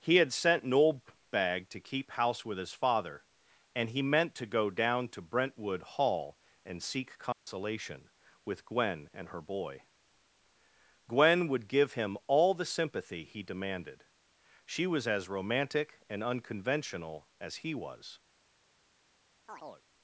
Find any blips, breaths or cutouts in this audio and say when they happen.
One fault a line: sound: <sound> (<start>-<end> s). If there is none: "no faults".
sound: dropout (7.3-7.5 s)
sound: chirp (19.5-19.9 s)